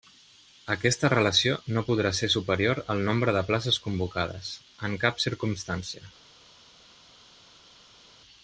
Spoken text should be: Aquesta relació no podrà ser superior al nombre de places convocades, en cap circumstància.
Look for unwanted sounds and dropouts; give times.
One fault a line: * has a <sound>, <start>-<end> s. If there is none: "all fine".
all fine